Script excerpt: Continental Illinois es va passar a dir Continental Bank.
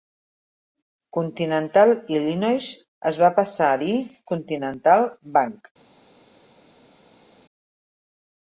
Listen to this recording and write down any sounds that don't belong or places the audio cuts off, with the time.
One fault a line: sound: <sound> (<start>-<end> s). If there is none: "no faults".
no faults